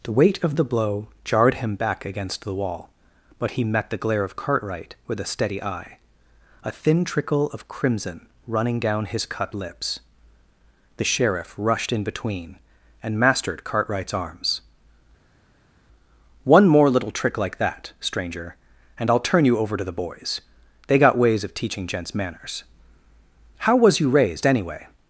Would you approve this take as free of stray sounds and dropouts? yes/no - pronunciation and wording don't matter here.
yes